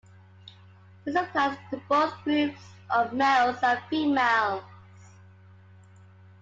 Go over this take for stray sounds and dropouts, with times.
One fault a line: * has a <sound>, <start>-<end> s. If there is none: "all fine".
all fine